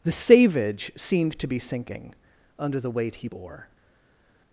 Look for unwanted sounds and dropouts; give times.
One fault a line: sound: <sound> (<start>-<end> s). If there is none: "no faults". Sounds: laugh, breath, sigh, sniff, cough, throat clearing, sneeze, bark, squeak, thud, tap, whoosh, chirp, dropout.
no faults